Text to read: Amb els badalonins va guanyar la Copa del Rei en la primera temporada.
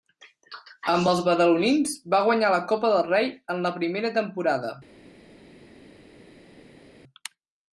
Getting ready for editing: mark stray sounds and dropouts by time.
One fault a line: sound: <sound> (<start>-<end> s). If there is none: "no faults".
no faults